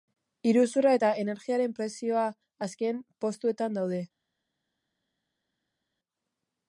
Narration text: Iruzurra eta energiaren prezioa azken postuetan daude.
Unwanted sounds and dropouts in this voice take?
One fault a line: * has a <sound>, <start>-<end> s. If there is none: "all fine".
all fine